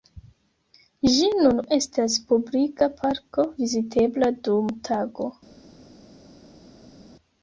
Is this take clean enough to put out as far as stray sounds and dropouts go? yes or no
yes